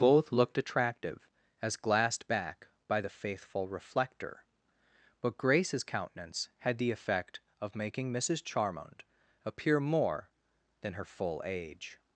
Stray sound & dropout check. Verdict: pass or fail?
pass